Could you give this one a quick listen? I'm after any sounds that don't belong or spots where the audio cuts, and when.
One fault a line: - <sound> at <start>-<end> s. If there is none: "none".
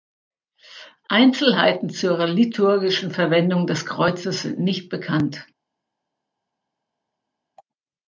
none